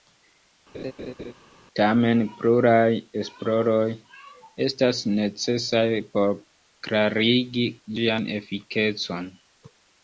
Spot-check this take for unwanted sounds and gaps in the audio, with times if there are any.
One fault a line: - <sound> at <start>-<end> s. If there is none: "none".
- laugh at 0.7-1.3 s